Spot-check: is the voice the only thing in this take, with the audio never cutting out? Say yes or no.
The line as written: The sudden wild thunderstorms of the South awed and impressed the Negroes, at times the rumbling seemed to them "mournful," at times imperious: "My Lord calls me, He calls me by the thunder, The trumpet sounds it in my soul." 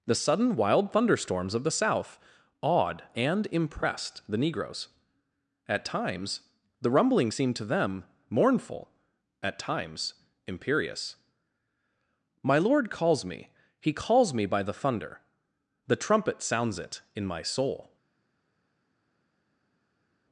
yes